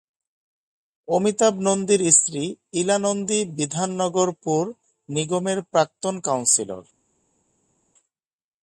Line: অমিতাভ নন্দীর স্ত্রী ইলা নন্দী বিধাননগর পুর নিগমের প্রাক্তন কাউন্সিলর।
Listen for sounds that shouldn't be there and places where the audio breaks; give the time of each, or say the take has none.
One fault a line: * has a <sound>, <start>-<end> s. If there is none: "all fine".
all fine